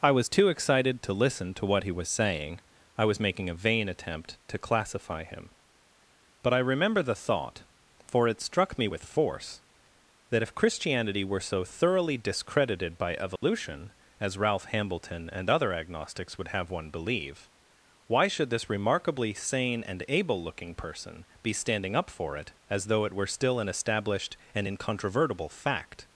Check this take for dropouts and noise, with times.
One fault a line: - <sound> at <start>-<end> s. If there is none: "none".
- dropout at 13.4-13.4 s